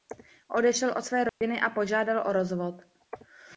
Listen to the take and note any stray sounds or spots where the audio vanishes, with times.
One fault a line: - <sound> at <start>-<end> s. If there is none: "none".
- dropout at 1.3-1.4 s